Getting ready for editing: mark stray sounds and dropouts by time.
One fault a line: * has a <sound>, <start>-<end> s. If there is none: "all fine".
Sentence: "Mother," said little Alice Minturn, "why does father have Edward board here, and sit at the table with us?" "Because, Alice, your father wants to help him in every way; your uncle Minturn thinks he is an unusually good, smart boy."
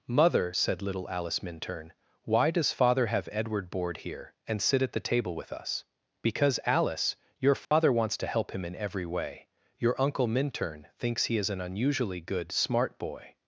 * has a dropout, 7.6-7.7 s